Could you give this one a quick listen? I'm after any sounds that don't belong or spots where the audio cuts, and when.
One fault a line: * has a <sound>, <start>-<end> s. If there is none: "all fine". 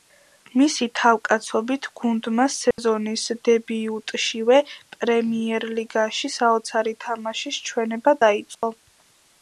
* has a dropout, 2.7-2.8 s
* has a dropout, 8.5-8.6 s